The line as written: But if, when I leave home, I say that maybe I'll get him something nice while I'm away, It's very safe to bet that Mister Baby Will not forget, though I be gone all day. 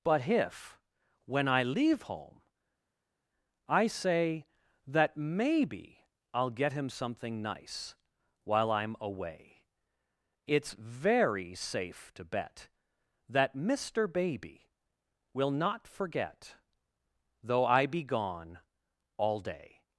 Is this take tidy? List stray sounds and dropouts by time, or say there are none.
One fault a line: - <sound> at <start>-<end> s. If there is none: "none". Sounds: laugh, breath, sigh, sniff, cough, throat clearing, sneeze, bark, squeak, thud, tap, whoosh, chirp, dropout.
none